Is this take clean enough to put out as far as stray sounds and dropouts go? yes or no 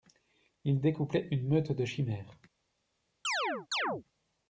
no